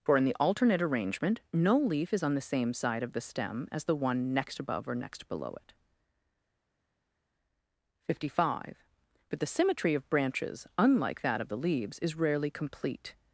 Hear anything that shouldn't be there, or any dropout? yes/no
no